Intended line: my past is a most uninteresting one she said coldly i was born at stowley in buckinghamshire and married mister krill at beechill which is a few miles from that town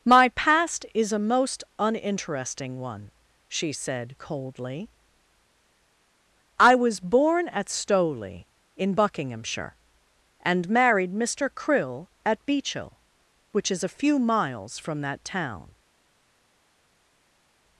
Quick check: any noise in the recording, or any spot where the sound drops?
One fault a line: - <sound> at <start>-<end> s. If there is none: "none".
none